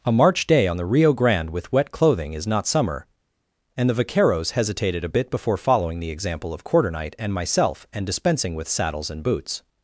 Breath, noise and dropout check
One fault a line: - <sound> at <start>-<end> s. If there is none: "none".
none